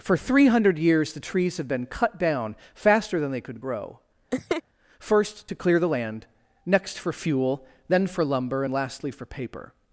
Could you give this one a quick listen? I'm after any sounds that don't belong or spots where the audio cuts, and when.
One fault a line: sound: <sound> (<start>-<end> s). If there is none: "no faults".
sound: laugh (4.3-4.6 s)